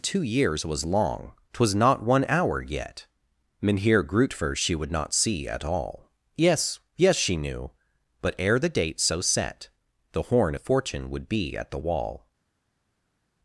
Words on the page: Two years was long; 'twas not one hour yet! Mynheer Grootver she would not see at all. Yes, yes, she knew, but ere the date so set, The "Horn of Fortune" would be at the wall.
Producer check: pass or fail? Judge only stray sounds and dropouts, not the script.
pass